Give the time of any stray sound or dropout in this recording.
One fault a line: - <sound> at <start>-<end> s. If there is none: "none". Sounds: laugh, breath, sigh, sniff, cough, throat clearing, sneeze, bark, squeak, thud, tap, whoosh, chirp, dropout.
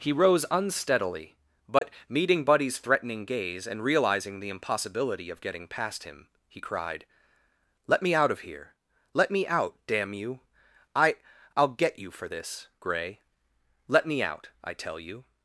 - dropout at 1.8-1.8 s